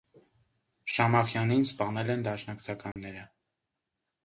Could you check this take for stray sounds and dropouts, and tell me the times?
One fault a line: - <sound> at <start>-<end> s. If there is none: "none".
- dropout at 2.9-3.0 s